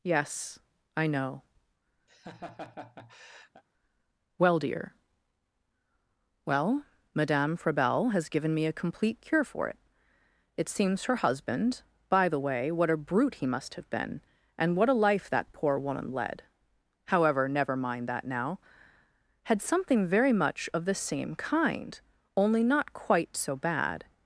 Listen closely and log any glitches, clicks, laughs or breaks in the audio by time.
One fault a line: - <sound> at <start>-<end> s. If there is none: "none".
- laugh at 2.1-3.6 s